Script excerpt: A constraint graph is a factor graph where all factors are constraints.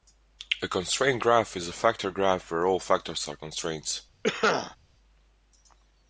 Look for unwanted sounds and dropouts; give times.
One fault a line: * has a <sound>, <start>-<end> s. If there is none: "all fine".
* has a cough, 4.2-4.8 s